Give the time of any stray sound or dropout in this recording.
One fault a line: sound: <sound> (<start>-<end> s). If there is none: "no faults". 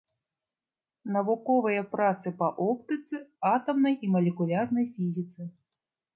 no faults